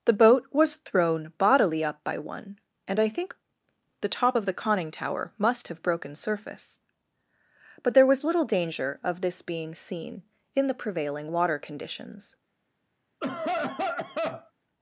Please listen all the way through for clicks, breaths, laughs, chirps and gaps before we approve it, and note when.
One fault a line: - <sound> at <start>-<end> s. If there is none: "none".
- cough at 13.2-14.5 s